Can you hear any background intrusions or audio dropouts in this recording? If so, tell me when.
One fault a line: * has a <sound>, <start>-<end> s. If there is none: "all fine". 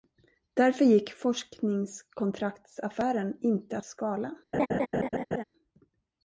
* has a laugh, 4.5-5.4 s